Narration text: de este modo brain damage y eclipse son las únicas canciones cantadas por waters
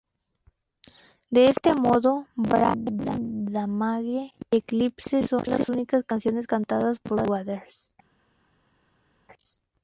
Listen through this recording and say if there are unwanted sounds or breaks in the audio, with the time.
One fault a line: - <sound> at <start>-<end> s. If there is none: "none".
none